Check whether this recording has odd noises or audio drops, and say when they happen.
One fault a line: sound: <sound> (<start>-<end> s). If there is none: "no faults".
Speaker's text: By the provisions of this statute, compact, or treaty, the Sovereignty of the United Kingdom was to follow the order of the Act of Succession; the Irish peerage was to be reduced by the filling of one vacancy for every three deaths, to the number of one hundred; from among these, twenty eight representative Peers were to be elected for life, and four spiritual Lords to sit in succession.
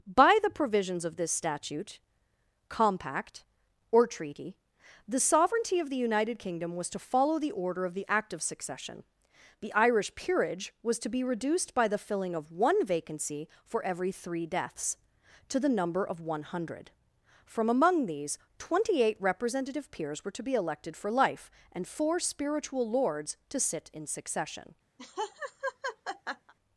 sound: laugh (25.0-26.5 s)